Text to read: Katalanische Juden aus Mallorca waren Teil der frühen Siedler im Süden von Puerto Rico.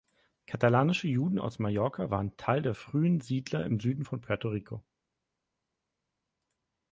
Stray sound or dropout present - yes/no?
no